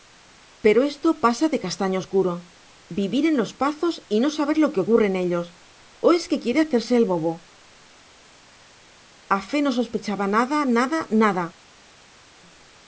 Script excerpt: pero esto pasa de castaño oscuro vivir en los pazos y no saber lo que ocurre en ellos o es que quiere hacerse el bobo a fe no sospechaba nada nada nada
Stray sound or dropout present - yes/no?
no